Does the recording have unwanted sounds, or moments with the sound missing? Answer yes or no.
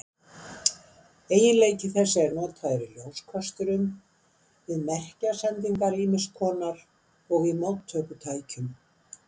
no